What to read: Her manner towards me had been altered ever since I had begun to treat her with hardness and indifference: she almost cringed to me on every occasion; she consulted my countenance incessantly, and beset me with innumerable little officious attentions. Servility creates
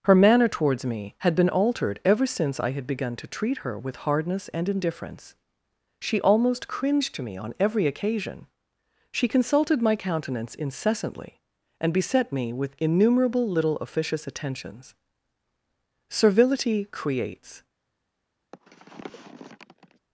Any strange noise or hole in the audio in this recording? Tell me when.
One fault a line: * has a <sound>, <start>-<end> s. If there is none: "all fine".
* has a sniff, 18.5-20.0 s